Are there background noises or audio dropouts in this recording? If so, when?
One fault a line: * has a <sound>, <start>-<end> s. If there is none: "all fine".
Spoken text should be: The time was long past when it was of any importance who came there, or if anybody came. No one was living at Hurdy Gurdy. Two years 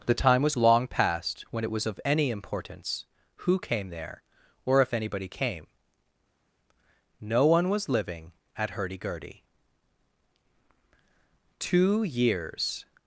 all fine